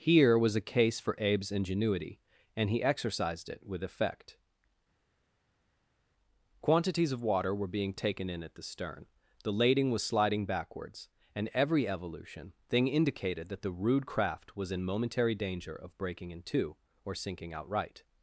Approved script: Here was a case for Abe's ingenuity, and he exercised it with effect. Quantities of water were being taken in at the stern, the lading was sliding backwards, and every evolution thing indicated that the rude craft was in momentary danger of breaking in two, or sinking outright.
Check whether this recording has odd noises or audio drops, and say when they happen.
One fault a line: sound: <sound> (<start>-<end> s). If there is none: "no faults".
no faults